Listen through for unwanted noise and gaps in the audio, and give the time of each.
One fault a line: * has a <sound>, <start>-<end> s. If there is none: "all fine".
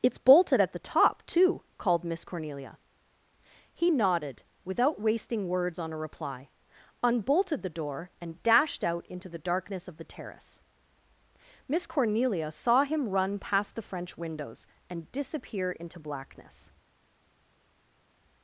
all fine